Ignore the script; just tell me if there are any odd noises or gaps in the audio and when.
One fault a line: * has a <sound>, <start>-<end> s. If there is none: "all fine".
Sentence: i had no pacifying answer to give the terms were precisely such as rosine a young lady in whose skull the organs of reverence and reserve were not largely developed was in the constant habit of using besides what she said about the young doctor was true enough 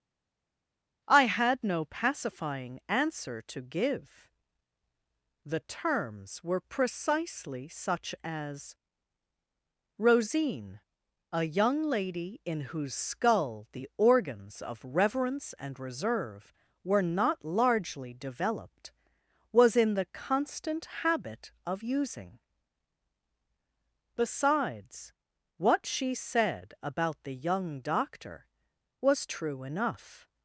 all fine